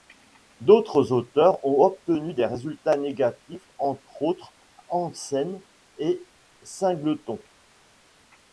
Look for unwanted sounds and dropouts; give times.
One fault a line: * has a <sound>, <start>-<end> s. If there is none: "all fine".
all fine